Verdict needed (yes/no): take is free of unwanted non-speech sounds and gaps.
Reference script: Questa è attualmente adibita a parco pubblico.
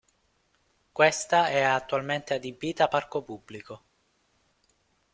yes